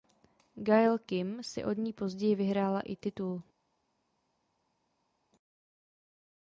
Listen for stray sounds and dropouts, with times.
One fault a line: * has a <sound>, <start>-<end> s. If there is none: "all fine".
all fine